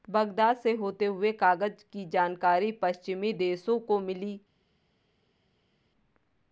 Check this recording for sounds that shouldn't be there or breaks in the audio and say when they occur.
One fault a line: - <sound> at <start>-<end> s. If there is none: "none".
none